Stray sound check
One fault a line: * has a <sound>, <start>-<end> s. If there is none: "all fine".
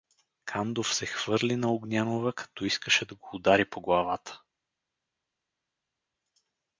all fine